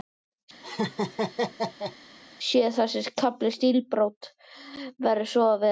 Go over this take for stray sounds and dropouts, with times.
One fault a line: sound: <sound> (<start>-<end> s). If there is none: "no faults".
sound: laugh (0.6-2.0 s)